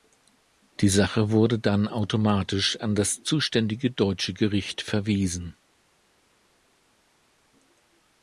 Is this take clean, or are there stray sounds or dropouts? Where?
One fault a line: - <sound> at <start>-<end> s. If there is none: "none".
none